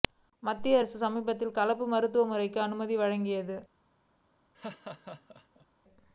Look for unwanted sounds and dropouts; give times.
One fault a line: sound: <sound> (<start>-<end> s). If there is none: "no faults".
sound: laugh (4.5-5.7 s)